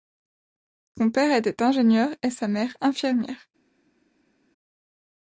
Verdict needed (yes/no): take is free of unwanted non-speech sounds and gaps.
yes